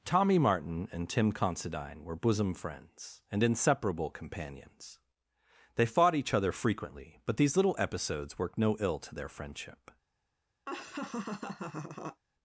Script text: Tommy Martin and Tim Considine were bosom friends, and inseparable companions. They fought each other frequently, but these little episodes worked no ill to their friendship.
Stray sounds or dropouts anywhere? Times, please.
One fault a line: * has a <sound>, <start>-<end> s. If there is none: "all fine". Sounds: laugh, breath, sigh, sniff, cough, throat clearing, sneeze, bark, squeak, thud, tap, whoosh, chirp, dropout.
* has a laugh, 10.7-12.2 s